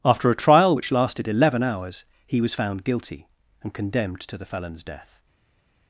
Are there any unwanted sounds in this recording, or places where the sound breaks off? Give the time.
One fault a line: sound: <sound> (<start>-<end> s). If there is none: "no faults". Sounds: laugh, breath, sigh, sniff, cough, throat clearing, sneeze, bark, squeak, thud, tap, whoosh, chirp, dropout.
no faults